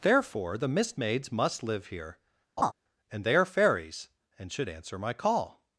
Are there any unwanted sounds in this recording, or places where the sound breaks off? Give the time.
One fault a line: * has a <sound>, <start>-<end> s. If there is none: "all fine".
* has a laugh, 2.6-2.7 s